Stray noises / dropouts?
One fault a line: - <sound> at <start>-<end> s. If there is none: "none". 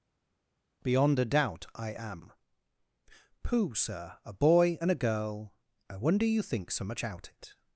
none